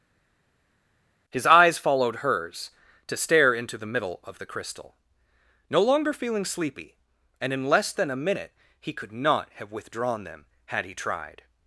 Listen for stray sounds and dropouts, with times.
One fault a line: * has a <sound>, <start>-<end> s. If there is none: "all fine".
all fine